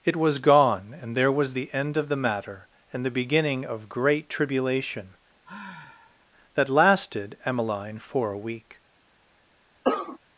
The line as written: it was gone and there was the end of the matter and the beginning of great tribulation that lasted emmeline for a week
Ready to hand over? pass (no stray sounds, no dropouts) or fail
fail